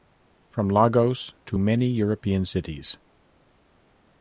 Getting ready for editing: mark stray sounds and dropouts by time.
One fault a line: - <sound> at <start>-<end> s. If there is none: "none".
none